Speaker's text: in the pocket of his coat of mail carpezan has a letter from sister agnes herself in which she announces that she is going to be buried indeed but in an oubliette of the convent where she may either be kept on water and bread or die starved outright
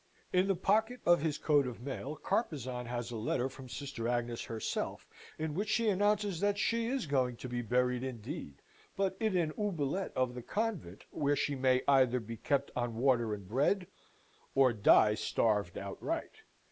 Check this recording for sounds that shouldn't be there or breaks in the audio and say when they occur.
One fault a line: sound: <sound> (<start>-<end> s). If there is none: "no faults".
no faults